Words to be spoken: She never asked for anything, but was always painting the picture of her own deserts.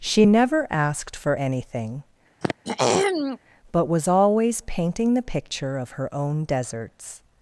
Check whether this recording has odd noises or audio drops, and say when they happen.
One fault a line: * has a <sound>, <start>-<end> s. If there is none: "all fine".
* has a throat clearing, 2.4-3.4 s